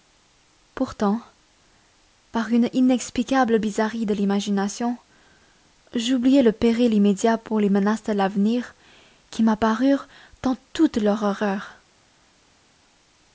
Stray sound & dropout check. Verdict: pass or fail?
pass